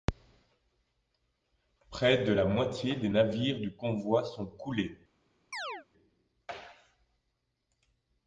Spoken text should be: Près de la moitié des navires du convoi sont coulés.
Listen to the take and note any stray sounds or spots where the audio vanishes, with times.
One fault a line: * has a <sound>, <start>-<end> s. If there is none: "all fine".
* has a chirp, 5.5-5.9 s